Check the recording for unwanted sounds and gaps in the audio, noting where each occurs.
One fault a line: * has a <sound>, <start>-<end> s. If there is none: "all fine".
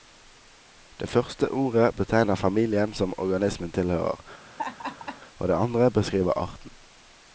* has a laugh, 4.5-5.2 s